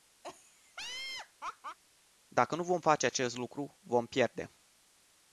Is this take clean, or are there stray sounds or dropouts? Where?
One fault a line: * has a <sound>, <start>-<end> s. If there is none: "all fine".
* has a laugh, 0.2-1.8 s